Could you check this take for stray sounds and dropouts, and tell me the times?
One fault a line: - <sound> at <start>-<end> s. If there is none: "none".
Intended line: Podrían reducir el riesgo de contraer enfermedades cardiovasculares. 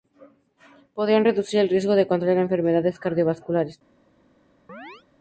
- chirp at 4.7-5.0 s